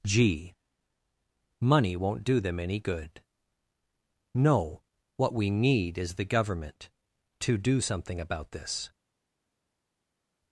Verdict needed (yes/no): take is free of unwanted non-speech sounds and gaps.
yes